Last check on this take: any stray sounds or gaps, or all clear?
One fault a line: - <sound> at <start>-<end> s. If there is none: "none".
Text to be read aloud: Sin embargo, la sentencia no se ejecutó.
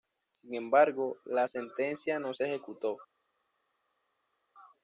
none